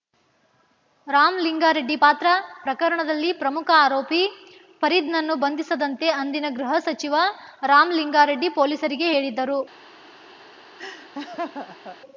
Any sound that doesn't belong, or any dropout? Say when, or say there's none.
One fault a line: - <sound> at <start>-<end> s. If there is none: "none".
- laugh at 10.8-12.0 s